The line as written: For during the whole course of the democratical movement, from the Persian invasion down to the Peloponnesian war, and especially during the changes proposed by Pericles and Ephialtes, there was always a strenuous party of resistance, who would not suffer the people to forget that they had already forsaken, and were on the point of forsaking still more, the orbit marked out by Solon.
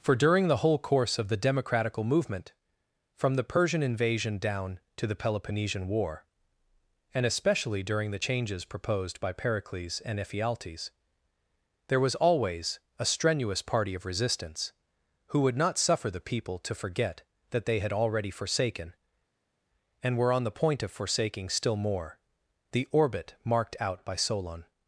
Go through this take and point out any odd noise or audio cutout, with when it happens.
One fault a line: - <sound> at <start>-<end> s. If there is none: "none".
none